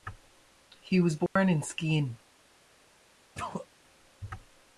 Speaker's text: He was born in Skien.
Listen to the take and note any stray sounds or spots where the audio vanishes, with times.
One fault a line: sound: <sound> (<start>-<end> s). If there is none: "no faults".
sound: dropout (1.3-1.4 s)
sound: sneeze (3.3-3.7 s)